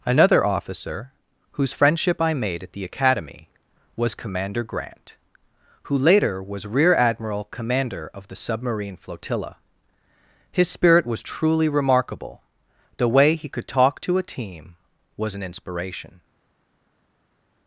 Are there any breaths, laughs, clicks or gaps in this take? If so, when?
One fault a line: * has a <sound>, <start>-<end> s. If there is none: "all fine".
all fine